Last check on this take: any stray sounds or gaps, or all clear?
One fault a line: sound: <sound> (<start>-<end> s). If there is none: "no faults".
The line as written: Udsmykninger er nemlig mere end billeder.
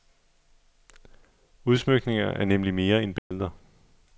sound: dropout (3.2-3.3 s)